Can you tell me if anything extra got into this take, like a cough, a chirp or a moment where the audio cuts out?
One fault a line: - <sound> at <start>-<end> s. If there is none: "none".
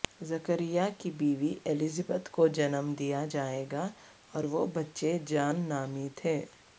none